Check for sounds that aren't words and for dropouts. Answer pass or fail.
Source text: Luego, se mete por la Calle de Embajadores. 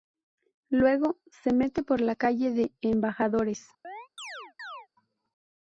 fail